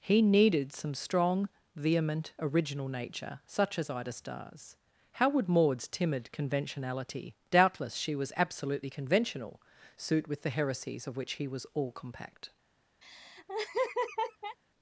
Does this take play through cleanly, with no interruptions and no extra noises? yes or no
no